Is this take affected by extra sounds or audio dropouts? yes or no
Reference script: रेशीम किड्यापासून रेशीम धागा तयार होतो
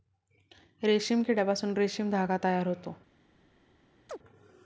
yes